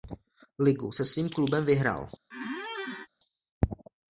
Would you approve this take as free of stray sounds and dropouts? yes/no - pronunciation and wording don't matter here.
no